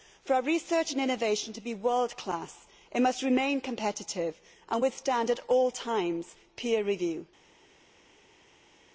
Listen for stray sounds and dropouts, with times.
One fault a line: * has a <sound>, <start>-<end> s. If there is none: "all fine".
all fine